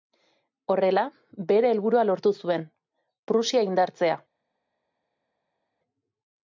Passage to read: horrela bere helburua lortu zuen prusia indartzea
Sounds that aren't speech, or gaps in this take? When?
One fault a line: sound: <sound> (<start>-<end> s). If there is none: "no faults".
no faults